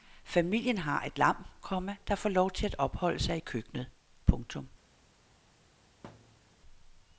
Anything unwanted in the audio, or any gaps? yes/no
yes